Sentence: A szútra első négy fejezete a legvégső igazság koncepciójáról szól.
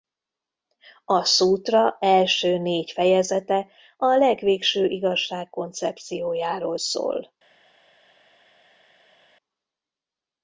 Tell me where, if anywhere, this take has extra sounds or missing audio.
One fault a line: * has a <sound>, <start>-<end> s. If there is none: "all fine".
all fine